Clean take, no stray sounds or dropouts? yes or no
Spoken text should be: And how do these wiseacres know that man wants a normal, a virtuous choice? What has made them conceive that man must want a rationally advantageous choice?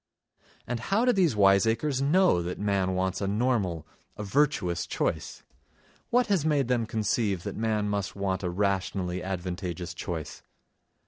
yes